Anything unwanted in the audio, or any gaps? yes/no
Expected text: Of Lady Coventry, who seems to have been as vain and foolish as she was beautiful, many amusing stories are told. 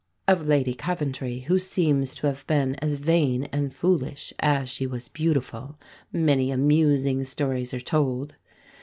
no